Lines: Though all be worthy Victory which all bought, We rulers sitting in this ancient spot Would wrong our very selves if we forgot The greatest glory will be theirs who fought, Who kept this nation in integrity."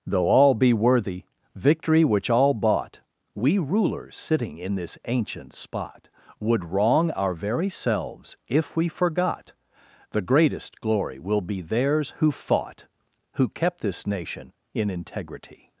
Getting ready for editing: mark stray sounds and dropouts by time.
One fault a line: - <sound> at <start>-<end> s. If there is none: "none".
none